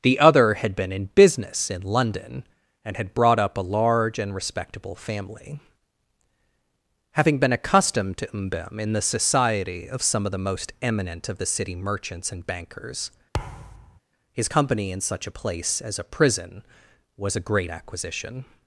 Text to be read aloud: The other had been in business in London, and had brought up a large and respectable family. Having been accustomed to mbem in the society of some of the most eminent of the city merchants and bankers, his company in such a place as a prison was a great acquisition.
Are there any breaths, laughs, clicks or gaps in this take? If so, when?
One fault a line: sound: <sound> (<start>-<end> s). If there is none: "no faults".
sound: thud (13.3-14.0 s)